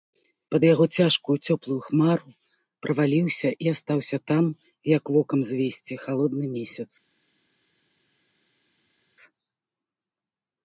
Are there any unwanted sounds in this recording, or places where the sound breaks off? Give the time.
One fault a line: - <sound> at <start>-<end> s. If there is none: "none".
none